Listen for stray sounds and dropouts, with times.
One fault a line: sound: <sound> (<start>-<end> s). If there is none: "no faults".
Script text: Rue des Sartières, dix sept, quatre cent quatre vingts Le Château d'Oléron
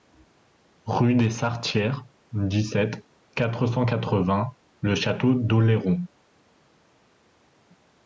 no faults